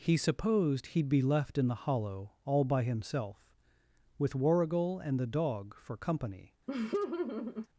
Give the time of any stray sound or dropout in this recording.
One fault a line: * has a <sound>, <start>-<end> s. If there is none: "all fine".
* has a laugh, 6.7-7.7 s